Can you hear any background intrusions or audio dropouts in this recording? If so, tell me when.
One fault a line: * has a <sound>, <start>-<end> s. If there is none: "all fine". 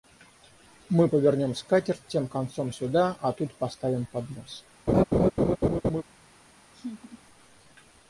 * has a laugh, 4.9-6.0 s
* has a laugh, 6.7-7.2 s